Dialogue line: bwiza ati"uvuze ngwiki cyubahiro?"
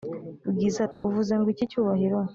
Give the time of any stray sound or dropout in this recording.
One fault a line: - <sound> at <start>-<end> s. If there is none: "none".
- dropout at 0.9-1.0 s